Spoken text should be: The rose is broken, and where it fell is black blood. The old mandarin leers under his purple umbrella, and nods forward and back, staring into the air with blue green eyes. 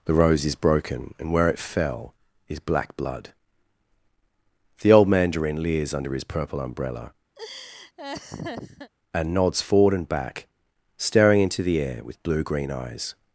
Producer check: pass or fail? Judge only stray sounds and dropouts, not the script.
fail